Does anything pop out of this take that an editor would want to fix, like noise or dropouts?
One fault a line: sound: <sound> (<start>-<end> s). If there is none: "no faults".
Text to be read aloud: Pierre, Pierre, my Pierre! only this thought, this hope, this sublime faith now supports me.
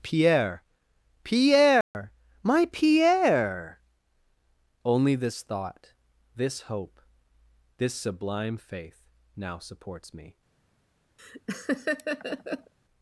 sound: dropout (1.8-1.9 s)
sound: laugh (11.2-12.7 s)